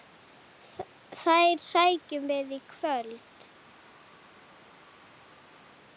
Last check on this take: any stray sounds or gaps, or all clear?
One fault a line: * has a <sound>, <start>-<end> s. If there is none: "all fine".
all fine